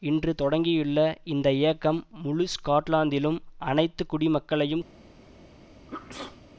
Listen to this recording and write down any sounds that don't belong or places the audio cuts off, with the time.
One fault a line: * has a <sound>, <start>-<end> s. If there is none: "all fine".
* has a sneeze, 5.9-6.4 s